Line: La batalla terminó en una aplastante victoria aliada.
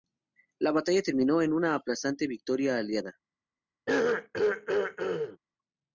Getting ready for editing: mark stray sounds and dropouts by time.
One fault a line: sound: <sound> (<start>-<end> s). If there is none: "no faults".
sound: throat clearing (3.9-5.4 s)